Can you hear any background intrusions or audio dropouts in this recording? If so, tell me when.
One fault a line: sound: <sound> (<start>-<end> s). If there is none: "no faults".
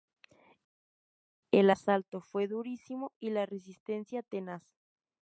no faults